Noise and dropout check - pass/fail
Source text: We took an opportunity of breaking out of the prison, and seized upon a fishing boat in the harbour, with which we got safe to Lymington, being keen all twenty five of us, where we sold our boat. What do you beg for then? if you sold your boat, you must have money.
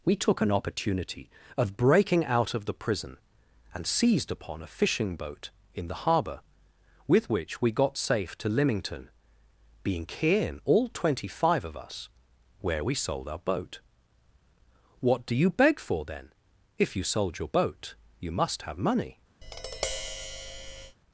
fail